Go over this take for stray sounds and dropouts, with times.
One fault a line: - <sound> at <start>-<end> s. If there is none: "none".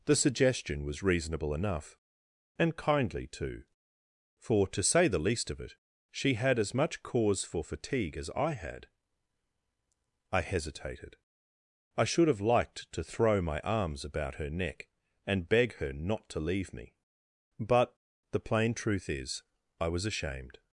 none